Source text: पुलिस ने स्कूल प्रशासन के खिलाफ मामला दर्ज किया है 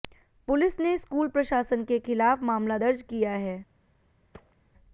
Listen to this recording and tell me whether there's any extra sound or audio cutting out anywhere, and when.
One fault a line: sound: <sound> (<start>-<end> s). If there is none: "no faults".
sound: thud (4.3-4.6 s)